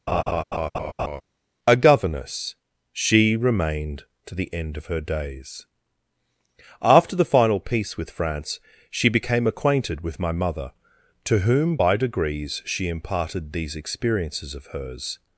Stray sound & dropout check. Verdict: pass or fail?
fail